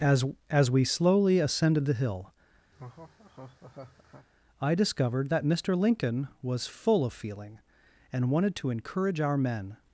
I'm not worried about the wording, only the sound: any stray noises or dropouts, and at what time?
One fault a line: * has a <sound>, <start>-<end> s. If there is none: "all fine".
* has a laugh, 2.7-4.3 s